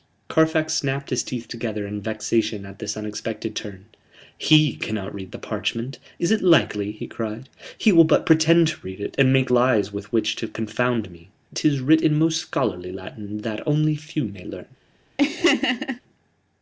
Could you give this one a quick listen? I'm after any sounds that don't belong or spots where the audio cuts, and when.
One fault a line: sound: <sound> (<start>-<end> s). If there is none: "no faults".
sound: laugh (15.2-16.0 s)